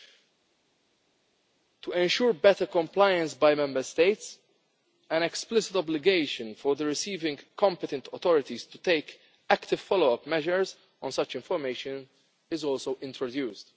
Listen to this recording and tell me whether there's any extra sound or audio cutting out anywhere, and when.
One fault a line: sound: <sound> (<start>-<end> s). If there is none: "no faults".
no faults